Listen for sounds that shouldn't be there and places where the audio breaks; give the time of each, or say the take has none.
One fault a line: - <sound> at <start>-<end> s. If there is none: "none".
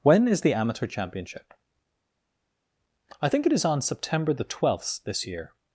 none